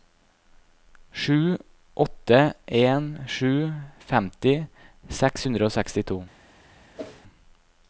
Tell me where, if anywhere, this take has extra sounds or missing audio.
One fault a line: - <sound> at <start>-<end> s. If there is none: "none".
- whoosh at 7.0-7.2 s